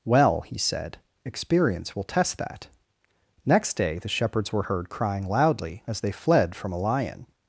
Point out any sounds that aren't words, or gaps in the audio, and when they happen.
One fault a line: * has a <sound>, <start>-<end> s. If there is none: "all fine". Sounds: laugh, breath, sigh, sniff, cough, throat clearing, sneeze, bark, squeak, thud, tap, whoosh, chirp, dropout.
all fine